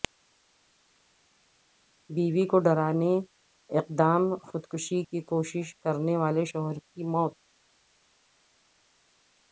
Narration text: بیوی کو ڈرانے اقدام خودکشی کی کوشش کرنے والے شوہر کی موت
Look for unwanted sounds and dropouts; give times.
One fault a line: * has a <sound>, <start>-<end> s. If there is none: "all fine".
all fine